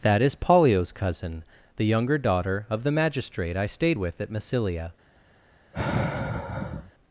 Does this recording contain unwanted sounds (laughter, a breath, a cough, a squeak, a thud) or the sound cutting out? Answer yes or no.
yes